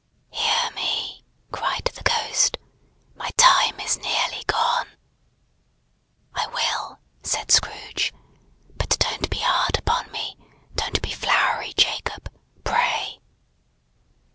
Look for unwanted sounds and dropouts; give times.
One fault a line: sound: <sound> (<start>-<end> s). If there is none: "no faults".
no faults